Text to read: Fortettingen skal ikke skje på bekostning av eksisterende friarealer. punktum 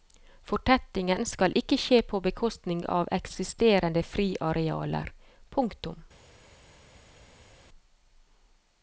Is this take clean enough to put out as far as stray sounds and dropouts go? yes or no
yes